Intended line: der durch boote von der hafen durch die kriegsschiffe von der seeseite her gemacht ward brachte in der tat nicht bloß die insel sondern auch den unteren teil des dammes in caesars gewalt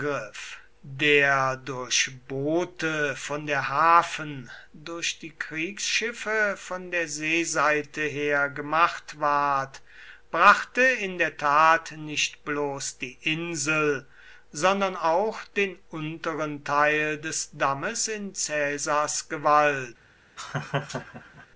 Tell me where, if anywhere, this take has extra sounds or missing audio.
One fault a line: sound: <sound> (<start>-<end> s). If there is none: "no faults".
sound: laugh (20.4-21.5 s)